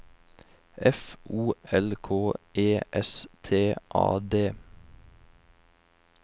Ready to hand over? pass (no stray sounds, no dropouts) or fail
pass